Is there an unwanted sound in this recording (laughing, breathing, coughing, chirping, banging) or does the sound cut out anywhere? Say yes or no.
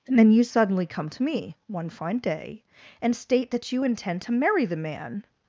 no